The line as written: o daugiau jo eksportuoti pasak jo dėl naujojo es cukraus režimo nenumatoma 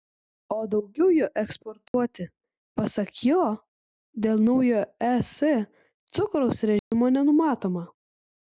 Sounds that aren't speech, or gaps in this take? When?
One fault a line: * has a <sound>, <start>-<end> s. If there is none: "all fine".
* has a dropout, 1.9-1.9 s
* has a dropout, 6.8-6.9 s